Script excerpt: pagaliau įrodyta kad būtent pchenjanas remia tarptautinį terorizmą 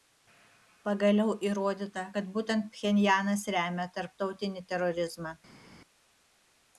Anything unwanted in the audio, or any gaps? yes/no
no